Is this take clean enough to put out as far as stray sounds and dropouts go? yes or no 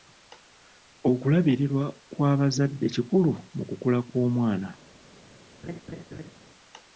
no